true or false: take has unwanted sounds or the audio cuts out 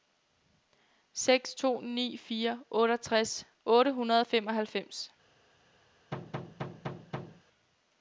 true